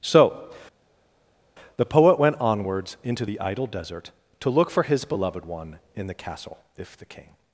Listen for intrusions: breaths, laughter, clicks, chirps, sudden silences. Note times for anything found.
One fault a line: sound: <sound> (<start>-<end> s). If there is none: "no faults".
no faults